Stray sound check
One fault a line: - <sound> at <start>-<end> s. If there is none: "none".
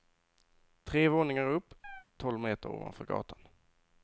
- chirp at 1.8-2.1 s